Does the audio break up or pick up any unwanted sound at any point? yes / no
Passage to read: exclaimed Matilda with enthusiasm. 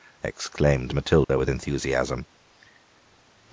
yes